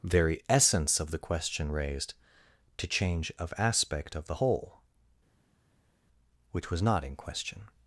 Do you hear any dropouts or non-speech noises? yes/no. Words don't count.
no